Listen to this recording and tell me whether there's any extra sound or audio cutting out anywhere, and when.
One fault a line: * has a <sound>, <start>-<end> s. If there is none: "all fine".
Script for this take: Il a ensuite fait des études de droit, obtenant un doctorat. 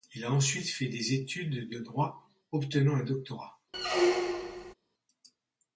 * has a squeak, 3.7-4.7 s